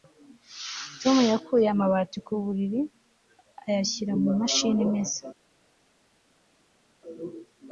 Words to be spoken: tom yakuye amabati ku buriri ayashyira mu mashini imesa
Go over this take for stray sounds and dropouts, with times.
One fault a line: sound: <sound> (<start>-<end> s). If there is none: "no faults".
no faults